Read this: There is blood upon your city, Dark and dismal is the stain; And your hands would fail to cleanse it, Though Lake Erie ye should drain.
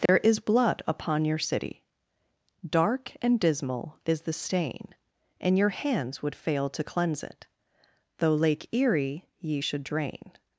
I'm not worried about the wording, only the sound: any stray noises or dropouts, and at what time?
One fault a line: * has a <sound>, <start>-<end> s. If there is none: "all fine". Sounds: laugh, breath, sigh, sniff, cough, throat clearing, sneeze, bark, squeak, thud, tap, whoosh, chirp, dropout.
* has a dropout, 0.1-0.1 s